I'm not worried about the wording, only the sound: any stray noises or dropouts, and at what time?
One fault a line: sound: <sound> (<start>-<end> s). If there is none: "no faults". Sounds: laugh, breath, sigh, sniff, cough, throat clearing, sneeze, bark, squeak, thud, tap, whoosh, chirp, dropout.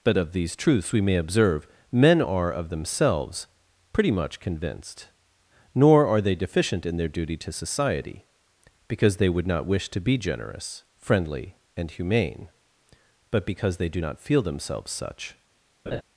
sound: laugh (15.9-16.0 s)